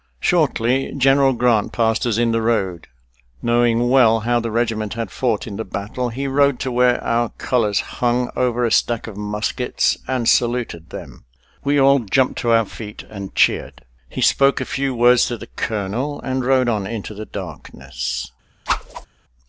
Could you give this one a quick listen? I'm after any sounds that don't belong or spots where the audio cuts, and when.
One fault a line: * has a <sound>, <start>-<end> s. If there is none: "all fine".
* has a whoosh, 18.7-19.1 s